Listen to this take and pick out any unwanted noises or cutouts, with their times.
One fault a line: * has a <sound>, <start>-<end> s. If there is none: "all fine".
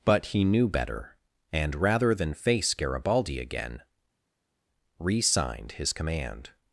all fine